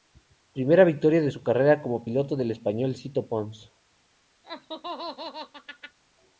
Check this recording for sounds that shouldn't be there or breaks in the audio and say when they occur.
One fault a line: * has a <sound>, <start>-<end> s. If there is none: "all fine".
* has a laugh, 4.4-6.0 s